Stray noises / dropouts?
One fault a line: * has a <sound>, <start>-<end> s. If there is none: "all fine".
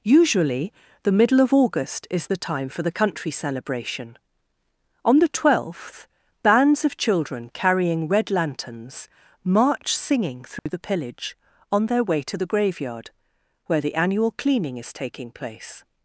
* has a dropout, 10.6-10.7 s